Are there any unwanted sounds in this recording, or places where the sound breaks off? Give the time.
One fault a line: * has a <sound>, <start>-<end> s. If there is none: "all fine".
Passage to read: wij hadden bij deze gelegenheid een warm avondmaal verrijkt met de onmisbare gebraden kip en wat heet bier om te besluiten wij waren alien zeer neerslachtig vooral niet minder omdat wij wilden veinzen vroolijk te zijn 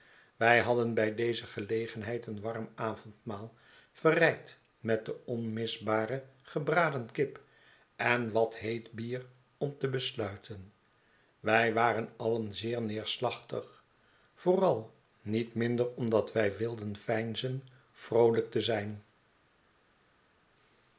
all fine